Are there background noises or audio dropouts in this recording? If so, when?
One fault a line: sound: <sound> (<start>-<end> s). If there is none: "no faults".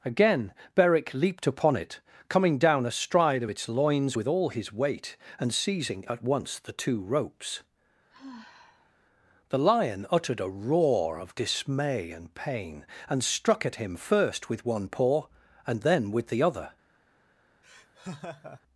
sound: sigh (8.1-8.9 s)
sound: laugh (17.6-18.6 s)